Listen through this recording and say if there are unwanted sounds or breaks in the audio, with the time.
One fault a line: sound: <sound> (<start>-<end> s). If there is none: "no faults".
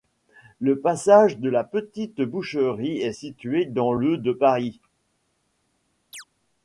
sound: chirp (6.1-6.2 s)